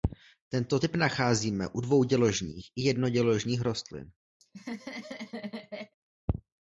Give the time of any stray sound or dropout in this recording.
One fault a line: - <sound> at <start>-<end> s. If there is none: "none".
- laugh at 4.4-5.9 s